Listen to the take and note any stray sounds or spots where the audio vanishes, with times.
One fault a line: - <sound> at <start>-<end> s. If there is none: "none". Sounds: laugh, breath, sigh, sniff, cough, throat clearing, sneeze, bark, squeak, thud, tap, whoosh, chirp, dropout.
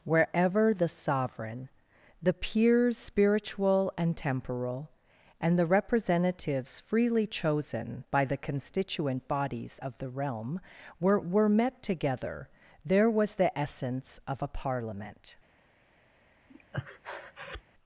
- breath at 16.5-17.6 s